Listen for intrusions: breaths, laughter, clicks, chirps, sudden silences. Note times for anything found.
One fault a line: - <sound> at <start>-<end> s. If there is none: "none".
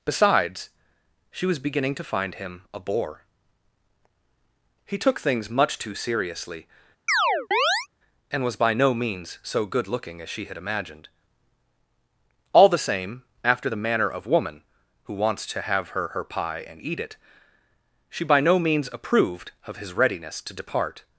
- chirp at 7.1-7.9 s